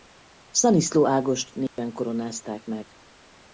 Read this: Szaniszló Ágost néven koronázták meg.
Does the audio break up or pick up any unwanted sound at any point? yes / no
yes